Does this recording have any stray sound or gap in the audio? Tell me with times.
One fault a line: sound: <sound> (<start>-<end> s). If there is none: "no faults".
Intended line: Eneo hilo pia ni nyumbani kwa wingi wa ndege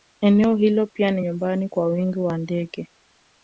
no faults